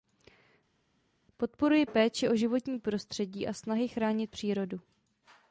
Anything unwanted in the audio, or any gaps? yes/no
no